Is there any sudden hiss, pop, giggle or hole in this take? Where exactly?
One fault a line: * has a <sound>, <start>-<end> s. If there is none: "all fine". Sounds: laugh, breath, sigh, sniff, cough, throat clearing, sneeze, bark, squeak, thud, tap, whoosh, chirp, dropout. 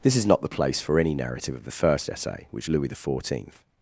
all fine